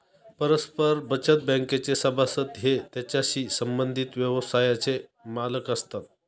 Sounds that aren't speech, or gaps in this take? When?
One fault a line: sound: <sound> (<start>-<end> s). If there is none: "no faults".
no faults